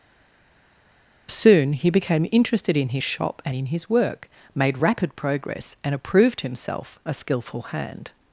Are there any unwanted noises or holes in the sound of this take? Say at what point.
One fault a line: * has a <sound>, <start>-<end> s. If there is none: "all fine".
all fine